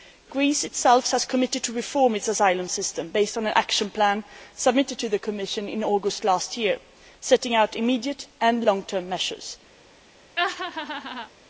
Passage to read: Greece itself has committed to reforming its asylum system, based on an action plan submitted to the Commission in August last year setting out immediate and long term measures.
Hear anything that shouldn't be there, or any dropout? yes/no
yes